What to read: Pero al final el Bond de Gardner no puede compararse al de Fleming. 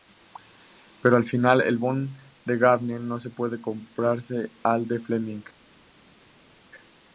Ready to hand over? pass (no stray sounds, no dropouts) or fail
pass